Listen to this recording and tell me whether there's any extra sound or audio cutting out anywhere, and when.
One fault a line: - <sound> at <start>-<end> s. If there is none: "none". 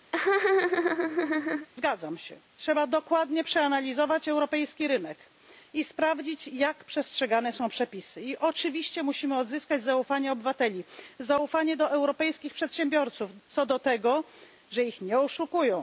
- laugh at 0.1-1.7 s